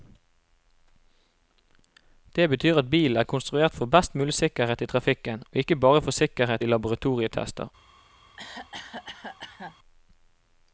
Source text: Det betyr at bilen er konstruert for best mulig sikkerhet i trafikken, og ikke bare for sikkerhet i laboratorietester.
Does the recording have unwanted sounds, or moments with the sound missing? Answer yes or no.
yes